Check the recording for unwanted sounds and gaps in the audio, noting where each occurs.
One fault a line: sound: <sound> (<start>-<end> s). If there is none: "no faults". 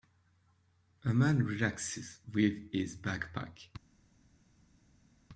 no faults